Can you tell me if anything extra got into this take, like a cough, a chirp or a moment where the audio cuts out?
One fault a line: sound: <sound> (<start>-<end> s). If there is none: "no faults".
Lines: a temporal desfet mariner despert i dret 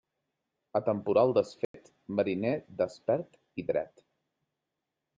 sound: dropout (1.6-1.7 s)